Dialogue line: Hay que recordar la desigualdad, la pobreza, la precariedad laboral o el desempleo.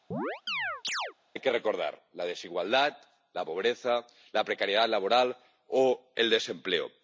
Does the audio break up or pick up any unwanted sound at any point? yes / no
yes